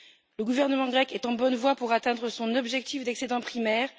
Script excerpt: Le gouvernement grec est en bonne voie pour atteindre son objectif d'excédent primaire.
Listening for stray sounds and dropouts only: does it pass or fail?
pass